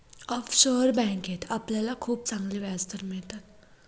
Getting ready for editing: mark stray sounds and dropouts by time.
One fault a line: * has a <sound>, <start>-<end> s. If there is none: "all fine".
all fine